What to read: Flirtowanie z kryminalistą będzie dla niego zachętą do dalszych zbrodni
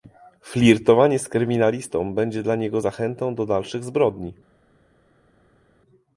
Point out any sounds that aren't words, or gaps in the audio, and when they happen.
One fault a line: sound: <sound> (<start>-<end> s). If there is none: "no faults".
no faults